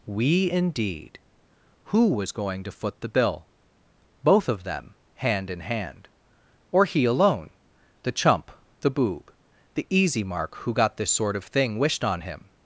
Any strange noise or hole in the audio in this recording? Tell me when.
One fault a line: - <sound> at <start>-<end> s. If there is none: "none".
none